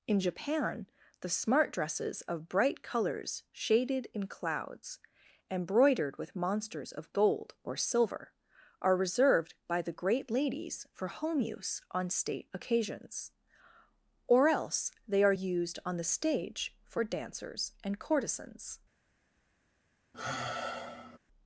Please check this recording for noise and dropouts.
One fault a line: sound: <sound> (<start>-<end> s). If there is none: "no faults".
sound: sigh (20.1-21.2 s)